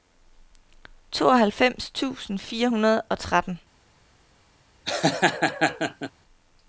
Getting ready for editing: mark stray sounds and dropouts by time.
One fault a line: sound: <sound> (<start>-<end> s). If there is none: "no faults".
sound: laugh (4.9-6.1 s)